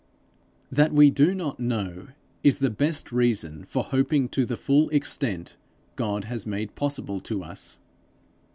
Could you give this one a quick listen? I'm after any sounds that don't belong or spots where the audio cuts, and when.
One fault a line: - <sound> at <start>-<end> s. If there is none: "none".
none